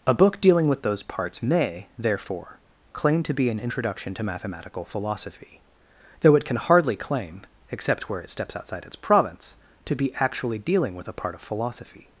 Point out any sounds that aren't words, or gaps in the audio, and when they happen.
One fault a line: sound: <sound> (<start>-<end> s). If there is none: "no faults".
no faults